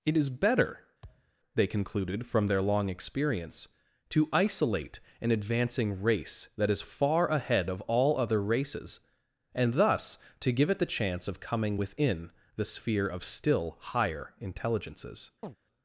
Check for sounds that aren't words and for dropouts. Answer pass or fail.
fail